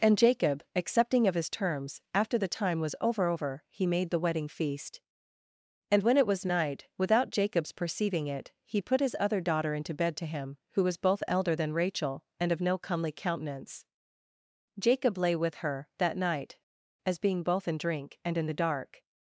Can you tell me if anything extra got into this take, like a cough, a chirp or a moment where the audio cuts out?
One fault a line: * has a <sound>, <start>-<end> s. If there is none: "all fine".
all fine